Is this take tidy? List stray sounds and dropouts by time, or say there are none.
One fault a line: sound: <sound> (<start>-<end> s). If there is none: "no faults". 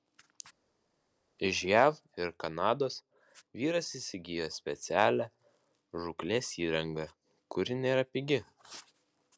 no faults